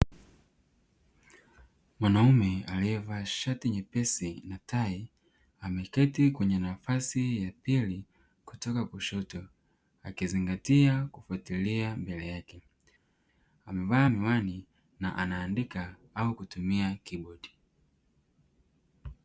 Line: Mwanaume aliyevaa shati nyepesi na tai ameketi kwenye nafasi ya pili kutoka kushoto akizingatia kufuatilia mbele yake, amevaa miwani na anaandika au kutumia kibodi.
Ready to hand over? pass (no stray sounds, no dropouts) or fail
pass